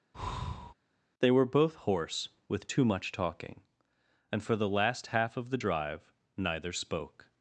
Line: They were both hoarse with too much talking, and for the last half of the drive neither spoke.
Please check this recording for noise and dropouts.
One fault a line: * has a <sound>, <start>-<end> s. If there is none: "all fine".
* has a breath, 0.1-0.7 s